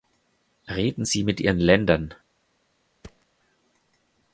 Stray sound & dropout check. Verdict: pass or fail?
fail